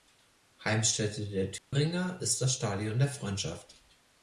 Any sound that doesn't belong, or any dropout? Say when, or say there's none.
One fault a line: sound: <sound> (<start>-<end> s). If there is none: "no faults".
sound: dropout (1.6-1.7 s)